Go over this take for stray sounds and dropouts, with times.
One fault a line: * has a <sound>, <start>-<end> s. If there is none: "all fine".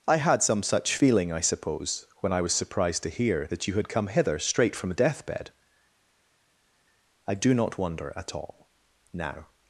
all fine